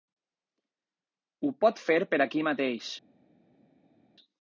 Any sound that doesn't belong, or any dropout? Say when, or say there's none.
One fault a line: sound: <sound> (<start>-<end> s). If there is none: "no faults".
no faults